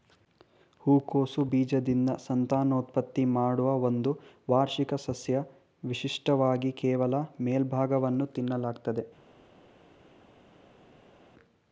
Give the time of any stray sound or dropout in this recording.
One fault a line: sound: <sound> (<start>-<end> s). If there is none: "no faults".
no faults